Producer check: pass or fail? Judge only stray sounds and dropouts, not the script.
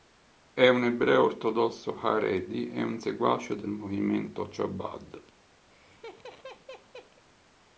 fail